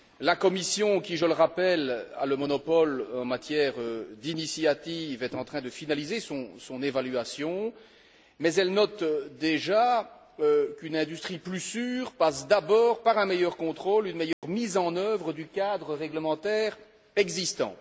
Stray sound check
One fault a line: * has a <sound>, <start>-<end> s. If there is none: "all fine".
* has a dropout, 14.3-14.4 s